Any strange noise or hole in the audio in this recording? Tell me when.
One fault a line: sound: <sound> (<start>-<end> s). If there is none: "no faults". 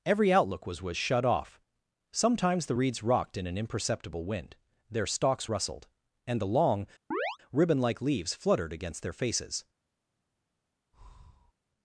sound: chirp (7.1-7.4 s)
sound: breath (10.9-11.5 s)